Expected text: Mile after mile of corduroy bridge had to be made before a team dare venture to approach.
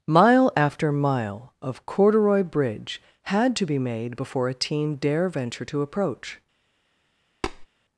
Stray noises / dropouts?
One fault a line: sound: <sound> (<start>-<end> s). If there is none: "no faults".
sound: tap (7.4-7.7 s)